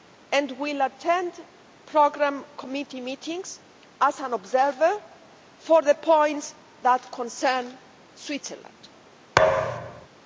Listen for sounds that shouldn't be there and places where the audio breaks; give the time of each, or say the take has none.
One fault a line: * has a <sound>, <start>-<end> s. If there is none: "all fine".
* has a thud, 9.4-10.1 s